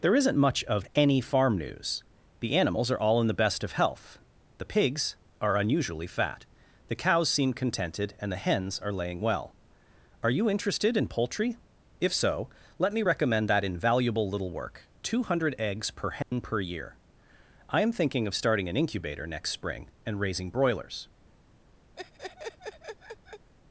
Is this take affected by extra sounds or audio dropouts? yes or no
yes